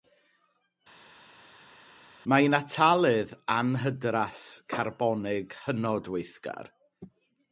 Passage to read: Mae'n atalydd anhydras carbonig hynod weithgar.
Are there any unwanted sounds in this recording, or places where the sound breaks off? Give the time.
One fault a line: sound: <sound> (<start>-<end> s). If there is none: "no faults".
no faults